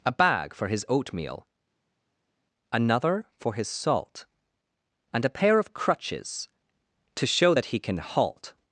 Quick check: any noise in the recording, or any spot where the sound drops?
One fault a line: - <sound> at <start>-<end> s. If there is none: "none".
none